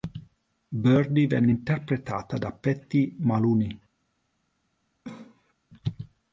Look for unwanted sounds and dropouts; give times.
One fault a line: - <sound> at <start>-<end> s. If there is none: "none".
- cough at 5.0-5.5 s